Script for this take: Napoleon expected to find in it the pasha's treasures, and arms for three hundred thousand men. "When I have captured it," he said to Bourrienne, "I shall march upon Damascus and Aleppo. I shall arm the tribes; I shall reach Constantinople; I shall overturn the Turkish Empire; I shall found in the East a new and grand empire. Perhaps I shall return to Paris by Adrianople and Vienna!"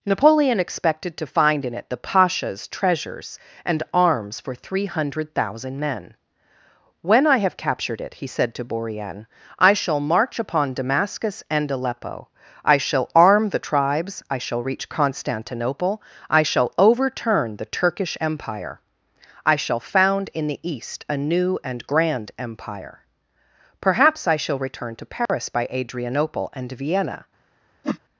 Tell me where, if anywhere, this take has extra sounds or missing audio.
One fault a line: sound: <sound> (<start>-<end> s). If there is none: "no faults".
sound: dropout (25.3-25.3 s)
sound: whoosh (27.8-28.0 s)